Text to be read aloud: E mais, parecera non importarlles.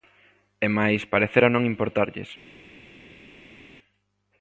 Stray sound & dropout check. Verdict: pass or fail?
pass